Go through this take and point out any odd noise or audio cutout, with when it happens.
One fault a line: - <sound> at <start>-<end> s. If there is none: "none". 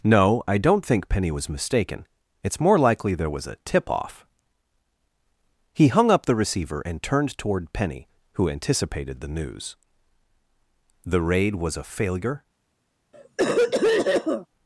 - cough at 13.1-14.5 s